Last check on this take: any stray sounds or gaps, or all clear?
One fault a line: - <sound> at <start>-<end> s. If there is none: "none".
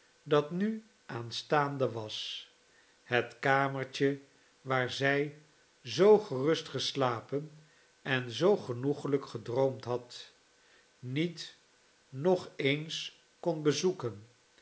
none